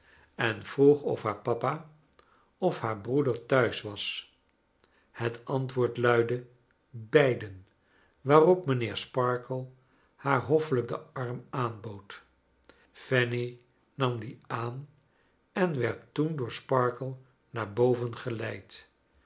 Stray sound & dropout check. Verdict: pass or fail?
pass